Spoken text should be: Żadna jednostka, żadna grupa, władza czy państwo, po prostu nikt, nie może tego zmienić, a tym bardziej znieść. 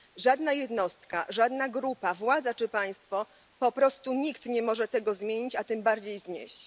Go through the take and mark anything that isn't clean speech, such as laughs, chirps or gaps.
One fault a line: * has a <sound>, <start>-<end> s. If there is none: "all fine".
all fine